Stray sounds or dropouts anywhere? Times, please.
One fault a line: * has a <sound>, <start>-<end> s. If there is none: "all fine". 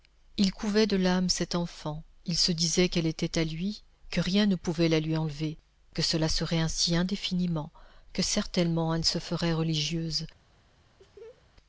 * has a laugh, 11.0-11.4 s